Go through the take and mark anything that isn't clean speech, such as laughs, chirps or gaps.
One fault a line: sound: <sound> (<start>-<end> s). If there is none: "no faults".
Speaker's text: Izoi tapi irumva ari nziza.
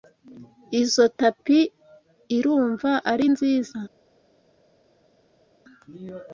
no faults